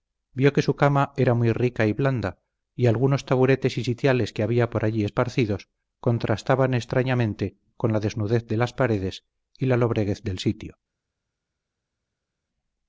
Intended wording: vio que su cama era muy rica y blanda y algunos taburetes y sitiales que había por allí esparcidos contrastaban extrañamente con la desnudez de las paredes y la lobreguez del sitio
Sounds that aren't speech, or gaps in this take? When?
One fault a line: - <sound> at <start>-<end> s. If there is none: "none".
none